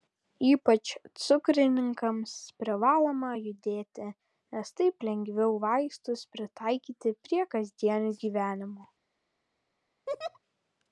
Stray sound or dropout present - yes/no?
yes